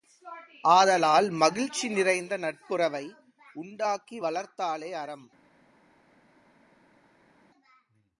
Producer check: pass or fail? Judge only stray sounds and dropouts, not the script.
pass